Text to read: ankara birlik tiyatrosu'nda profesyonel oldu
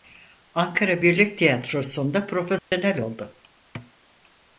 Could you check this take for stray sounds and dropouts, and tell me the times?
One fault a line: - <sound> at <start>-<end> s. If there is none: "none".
- dropout at 2.6-2.7 s
- thud at 3.7-3.9 s